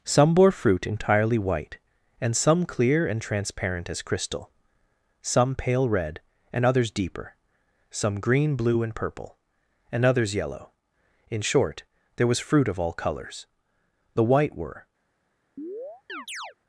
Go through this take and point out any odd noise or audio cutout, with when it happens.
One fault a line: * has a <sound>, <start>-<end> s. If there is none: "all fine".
* has a chirp, 15.6-16.6 s